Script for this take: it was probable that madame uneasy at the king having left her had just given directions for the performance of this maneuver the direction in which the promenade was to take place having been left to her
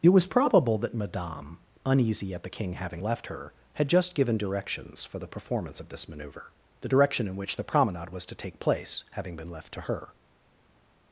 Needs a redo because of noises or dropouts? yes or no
no